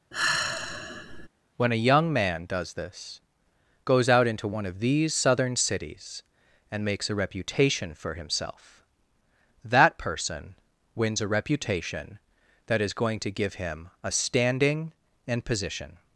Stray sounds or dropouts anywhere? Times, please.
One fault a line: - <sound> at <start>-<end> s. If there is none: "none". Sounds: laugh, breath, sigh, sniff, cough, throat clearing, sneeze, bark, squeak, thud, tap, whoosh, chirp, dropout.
- sigh at 0.1-1.3 s